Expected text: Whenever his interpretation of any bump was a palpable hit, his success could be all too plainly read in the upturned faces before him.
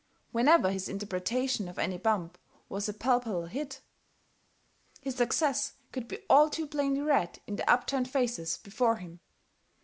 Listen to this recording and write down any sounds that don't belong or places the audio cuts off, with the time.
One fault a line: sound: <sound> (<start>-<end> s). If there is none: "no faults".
no faults